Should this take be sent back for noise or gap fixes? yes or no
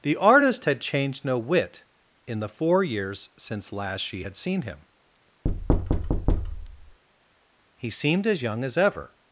yes